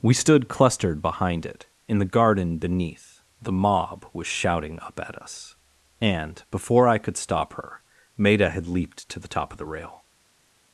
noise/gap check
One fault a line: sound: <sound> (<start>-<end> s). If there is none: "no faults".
no faults